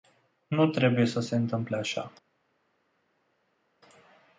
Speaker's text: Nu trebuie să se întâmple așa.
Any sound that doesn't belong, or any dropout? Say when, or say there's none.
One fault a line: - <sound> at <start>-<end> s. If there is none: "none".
none